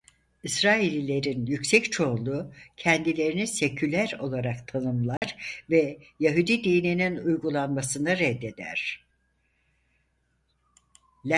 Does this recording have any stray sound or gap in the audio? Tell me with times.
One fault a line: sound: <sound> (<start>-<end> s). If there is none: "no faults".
sound: dropout (5.2-5.2 s)